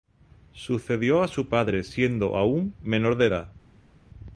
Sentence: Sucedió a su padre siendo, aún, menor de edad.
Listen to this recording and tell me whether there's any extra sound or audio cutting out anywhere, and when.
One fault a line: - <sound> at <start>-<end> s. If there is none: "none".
none